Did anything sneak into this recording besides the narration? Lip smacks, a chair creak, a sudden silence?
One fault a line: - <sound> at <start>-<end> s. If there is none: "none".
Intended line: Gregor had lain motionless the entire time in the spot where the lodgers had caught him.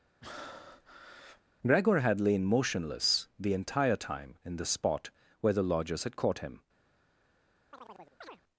- breath at 0.2-1.4 s
- chirp at 7.7-8.4 s